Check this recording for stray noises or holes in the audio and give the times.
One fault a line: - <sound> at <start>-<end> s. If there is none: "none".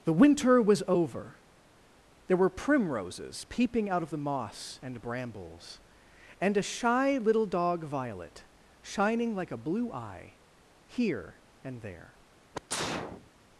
- sneeze at 12.5-13.3 s